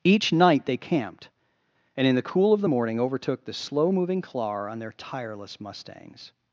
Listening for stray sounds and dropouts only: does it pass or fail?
pass